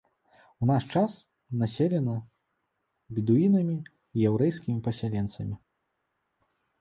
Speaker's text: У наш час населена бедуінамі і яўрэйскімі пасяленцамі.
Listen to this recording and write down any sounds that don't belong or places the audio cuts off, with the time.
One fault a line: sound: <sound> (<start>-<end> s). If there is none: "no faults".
no faults